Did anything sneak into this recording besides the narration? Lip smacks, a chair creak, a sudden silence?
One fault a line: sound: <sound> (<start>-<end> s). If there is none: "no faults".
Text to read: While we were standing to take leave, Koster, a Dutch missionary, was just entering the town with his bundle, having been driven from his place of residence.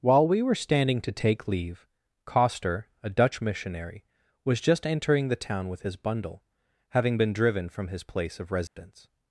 sound: dropout (8.7-8.8 s)